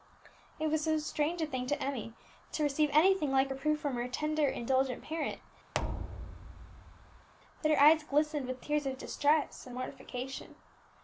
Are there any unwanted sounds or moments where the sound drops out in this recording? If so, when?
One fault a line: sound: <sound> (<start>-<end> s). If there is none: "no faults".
sound: thud (5.7-7.3 s)